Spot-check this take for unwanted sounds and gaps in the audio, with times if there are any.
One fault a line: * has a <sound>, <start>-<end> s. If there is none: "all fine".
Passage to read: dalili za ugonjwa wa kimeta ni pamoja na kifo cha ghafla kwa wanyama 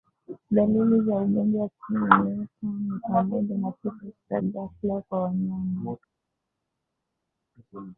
all fine